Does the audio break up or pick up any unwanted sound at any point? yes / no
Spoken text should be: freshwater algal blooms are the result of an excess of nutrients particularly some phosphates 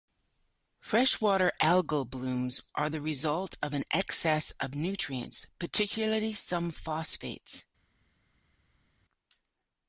no